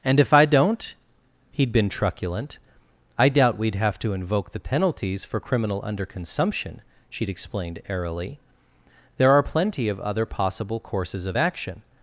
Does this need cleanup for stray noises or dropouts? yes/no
no